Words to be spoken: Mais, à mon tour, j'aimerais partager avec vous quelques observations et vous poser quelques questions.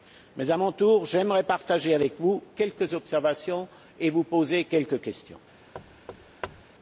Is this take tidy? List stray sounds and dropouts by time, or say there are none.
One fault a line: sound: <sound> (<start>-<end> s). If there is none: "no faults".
sound: thud (5.7-6.6 s)